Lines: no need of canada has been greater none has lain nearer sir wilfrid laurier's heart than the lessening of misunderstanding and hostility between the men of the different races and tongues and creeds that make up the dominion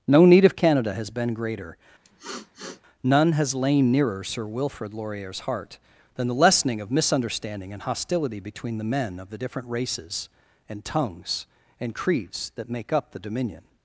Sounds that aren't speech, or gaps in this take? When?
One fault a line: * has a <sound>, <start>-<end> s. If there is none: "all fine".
* has a sniff, 2.0-2.8 s